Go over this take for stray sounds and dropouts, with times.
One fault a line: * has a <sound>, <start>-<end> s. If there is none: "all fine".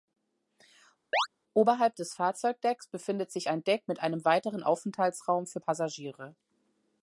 * has a chirp, 1.1-1.3 s